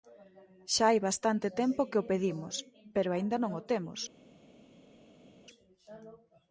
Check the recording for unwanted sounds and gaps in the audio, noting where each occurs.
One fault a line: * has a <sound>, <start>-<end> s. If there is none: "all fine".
all fine